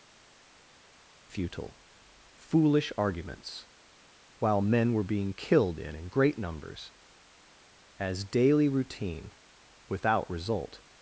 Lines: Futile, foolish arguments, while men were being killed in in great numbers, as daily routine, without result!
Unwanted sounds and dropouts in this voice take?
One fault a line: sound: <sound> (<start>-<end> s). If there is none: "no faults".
no faults